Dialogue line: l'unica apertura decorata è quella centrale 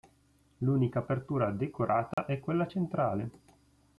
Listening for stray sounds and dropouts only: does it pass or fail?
fail